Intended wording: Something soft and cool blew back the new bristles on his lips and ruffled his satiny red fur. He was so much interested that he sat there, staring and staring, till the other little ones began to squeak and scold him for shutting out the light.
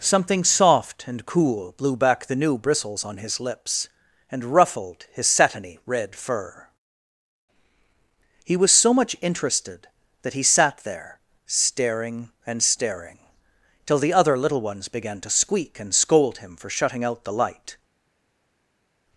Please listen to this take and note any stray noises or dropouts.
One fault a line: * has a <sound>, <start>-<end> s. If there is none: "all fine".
all fine